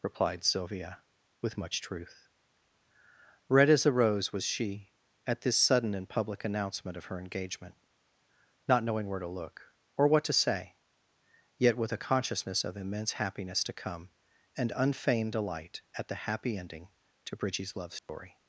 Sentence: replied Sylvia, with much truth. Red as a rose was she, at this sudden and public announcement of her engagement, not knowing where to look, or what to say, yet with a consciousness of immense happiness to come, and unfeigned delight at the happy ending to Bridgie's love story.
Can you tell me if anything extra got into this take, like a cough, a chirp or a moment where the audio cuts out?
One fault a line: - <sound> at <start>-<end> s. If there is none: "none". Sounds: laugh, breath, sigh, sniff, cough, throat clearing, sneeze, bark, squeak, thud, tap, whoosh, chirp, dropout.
- dropout at 18.0-18.1 s